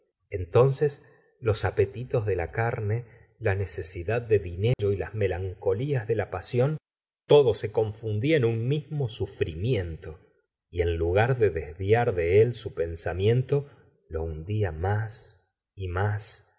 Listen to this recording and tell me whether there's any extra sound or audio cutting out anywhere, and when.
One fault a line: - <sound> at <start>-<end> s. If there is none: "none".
- dropout at 4.7-4.8 s